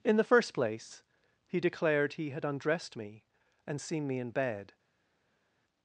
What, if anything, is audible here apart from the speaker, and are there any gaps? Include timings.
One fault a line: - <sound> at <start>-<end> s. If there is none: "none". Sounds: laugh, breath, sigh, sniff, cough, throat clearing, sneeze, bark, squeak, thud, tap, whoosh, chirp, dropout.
none